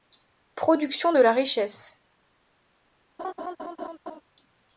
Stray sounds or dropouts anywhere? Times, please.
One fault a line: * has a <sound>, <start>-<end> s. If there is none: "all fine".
* has a laugh, 3.2-4.2 s